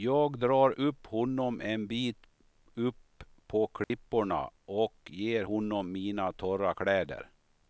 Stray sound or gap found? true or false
true